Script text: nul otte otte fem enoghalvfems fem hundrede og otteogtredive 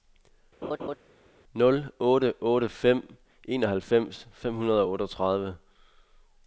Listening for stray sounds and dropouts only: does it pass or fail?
fail